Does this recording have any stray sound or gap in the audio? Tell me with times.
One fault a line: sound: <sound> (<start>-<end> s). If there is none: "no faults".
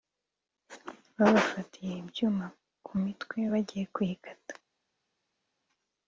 no faults